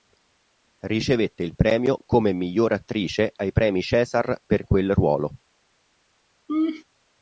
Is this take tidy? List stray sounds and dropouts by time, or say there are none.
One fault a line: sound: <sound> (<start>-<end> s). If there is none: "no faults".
sound: laugh (6.5-6.8 s)